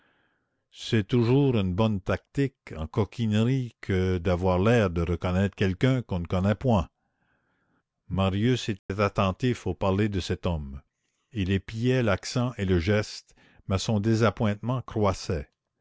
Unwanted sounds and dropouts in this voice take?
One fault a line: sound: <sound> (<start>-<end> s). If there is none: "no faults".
sound: dropout (8.8-8.9 s)